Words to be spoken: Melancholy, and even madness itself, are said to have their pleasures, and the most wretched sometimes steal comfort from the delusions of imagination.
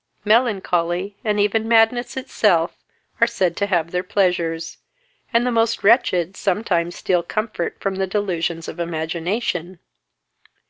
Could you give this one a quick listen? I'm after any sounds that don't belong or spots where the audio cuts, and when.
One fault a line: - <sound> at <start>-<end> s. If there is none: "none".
none